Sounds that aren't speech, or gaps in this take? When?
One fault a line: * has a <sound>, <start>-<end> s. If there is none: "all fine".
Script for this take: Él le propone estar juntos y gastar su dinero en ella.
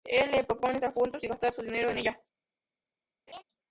* has a laugh, 3.3-3.4 s